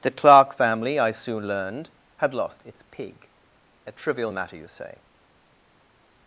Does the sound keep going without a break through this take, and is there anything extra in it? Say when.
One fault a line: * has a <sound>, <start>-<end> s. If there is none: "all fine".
all fine